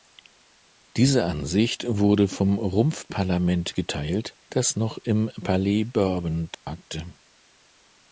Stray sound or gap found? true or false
true